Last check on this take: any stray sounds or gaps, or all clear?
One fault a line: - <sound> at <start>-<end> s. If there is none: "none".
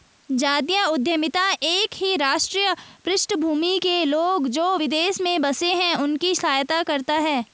none